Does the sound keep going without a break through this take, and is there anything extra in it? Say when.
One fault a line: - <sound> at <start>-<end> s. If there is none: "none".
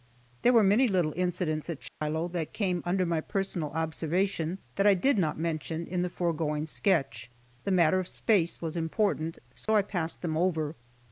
- dropout at 1.9-2.0 s
- dropout at 9.7-9.7 s